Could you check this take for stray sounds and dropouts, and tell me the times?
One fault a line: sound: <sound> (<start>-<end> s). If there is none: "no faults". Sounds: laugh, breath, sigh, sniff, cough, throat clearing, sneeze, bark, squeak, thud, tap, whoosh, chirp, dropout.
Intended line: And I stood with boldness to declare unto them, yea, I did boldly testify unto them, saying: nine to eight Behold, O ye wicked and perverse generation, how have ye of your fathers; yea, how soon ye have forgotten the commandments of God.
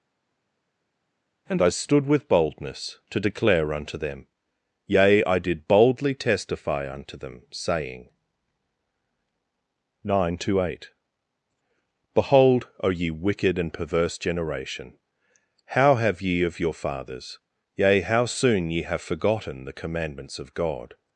no faults